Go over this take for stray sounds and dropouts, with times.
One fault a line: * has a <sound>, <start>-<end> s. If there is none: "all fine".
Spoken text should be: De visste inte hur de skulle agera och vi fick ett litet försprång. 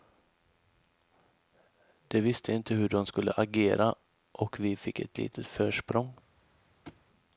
* has a thud, 6.9-7.0 s